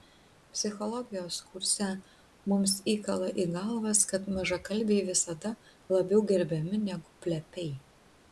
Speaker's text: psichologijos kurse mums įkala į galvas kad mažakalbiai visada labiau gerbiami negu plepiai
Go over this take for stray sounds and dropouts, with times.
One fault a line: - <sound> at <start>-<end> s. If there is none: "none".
none